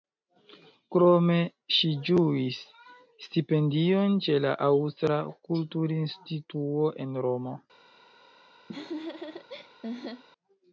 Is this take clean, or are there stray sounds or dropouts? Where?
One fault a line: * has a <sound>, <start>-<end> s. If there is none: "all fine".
* has a laugh, 8.7-10.2 s